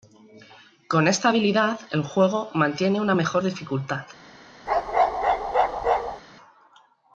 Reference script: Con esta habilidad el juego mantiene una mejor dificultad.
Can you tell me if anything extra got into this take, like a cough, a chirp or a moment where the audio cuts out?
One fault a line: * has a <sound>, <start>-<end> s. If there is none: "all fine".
* has a bark, 4.7-6.2 s